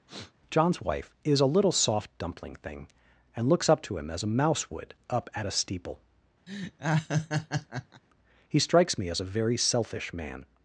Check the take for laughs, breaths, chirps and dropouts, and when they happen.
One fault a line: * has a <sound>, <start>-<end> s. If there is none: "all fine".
* has a sniff, 0.1-0.3 s
* has a laugh, 6.5-8.0 s